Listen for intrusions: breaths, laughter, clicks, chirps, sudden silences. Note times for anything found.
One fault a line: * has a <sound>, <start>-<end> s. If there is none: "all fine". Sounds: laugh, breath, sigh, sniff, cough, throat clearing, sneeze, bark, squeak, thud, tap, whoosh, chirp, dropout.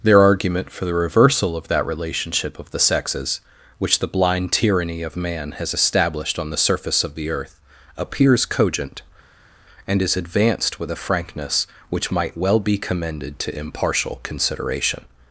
all fine